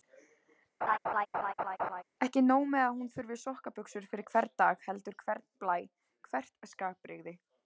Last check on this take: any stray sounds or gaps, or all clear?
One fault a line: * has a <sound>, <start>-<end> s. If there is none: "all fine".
* has a laugh, 0.8-2.0 s